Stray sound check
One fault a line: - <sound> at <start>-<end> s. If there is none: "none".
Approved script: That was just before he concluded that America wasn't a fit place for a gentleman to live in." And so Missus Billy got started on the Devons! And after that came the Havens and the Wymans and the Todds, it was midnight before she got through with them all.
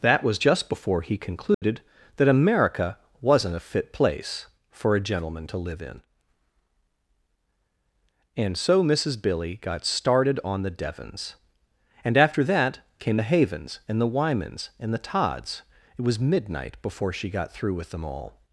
- dropout at 1.5-1.6 s